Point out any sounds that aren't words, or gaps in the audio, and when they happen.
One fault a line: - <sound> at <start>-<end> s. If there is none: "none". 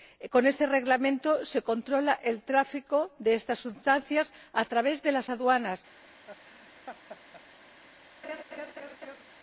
- laugh at 6.3-7.4 s
- laugh at 8.2-9.2 s